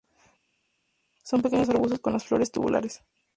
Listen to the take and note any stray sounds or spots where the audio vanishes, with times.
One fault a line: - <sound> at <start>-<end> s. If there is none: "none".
none